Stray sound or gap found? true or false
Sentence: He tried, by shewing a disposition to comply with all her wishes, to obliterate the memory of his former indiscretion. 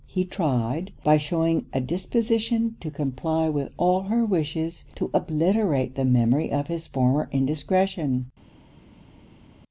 false